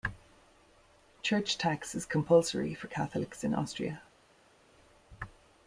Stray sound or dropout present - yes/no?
no